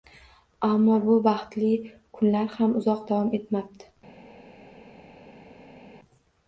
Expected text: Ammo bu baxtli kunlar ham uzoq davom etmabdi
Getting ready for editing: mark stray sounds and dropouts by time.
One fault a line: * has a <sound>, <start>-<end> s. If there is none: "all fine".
all fine